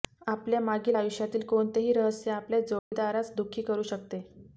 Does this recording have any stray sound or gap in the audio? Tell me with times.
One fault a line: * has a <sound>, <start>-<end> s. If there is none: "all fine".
* has a dropout, 2.8-2.9 s